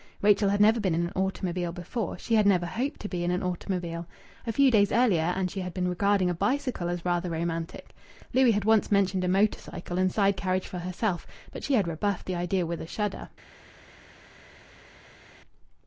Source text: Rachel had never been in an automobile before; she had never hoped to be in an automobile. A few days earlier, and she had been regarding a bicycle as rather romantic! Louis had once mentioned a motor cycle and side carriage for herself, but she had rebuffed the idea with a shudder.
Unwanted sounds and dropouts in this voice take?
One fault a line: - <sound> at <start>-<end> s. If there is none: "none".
none